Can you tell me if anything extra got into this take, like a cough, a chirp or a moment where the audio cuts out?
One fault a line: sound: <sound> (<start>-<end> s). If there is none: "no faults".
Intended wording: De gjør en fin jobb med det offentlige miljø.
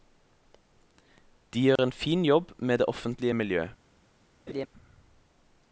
sound: dropout (1.8-1.8 s)
sound: laugh (4.5-4.7 s)